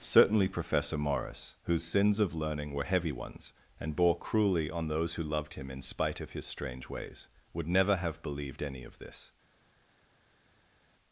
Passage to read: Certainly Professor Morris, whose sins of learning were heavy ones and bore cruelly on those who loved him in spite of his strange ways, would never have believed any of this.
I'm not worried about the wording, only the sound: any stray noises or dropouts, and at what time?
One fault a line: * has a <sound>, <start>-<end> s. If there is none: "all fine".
all fine